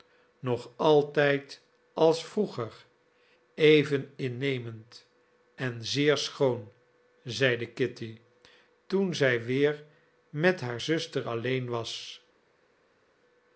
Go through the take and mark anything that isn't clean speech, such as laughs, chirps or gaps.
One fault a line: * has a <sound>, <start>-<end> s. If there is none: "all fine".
all fine